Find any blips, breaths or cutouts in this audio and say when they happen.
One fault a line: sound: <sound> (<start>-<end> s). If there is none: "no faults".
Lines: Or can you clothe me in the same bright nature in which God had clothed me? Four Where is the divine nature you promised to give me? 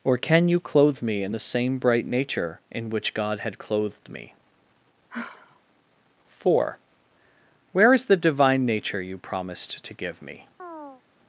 sound: sigh (5.1-5.6 s)
sound: chirp (10.6-11.0 s)